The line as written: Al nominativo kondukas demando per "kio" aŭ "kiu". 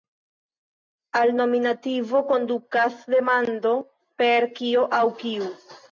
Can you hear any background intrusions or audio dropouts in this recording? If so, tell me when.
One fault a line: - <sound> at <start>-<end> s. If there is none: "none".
none